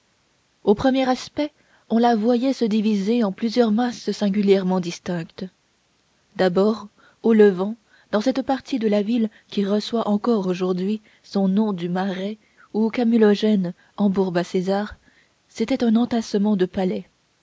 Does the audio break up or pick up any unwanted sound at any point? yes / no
no